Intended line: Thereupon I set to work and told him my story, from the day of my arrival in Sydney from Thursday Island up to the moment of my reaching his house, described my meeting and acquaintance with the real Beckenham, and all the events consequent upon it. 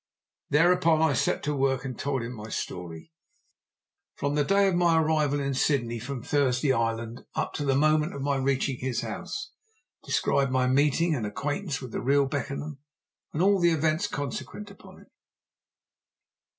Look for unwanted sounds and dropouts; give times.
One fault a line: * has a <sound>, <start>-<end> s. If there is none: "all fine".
all fine